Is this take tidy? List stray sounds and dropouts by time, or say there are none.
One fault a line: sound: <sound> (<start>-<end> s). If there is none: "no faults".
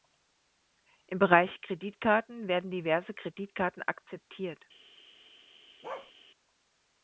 sound: bark (5.8-6.1 s)